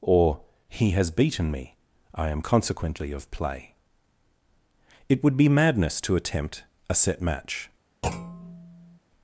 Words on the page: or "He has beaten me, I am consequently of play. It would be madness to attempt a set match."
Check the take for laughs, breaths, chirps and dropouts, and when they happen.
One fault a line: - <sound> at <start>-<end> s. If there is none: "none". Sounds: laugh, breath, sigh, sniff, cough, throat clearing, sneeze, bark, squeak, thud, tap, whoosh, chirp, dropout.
- thud at 8.0-9.0 s